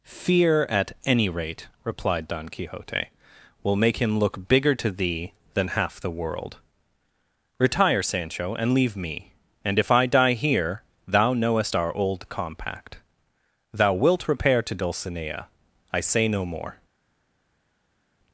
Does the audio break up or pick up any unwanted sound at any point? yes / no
no